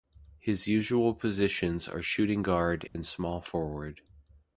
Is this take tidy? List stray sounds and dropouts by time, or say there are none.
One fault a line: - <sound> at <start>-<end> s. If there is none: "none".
- dropout at 2.9-3.0 s